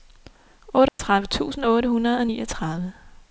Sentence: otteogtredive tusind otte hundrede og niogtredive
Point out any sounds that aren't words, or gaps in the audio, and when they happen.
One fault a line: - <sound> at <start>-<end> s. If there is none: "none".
- dropout at 0.9-1.0 s